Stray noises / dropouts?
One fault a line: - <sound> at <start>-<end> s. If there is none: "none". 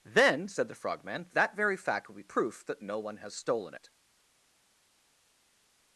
none